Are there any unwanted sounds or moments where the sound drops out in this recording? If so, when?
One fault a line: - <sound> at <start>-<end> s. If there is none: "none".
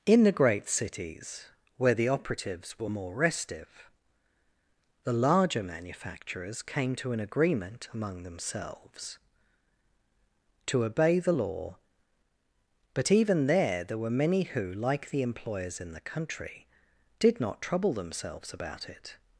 none